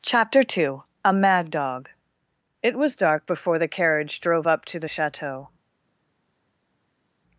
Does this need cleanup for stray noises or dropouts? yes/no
no